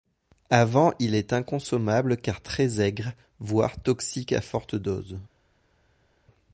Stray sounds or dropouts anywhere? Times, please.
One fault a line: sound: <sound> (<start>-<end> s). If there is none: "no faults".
no faults